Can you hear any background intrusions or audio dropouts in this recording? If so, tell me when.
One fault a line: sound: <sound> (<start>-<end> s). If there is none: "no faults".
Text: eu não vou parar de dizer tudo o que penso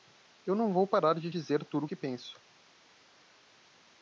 no faults